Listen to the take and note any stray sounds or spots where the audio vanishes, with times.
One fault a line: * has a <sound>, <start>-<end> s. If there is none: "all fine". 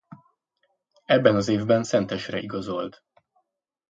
all fine